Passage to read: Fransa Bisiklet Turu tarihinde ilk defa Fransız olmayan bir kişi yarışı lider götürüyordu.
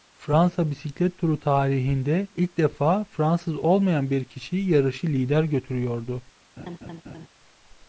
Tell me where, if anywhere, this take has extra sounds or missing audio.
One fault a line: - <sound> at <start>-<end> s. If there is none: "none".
- laugh at 6.6-7.3 s